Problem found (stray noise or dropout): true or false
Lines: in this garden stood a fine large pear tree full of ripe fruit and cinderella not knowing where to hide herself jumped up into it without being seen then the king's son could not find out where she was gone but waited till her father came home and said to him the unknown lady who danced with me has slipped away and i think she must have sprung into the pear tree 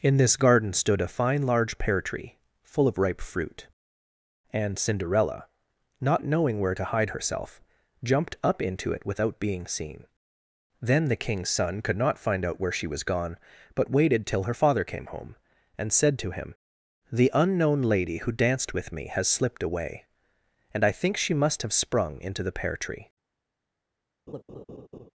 true